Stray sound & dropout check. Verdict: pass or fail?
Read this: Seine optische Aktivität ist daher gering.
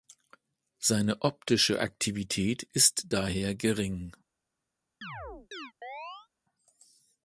fail